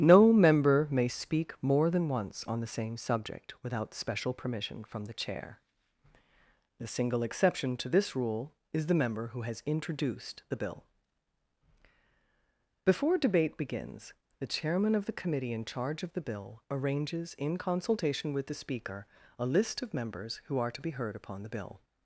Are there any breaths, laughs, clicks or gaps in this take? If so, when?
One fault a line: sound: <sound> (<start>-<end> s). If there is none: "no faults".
no faults